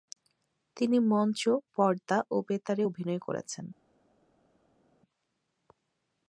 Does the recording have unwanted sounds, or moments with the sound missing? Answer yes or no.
no